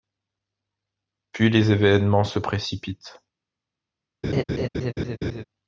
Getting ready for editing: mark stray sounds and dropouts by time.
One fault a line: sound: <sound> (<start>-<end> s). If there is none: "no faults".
sound: laugh (4.2-5.4 s)